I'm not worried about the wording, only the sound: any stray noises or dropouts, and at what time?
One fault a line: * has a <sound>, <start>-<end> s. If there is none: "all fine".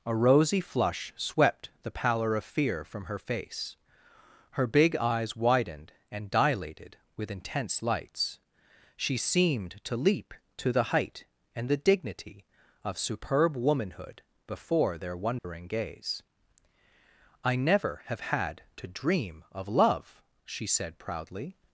* has a dropout, 15.4-15.4 s